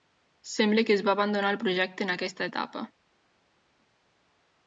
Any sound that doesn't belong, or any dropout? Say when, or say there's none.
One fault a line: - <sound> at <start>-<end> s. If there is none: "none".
none